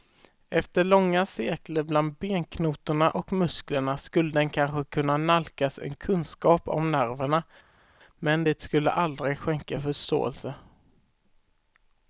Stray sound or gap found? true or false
false